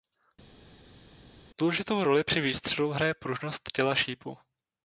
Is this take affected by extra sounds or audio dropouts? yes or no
no